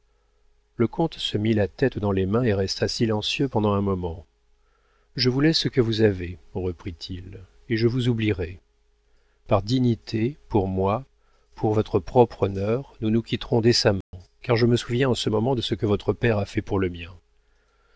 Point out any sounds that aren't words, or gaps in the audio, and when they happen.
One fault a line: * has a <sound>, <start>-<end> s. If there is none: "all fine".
* has a dropout, 14.0-14.1 s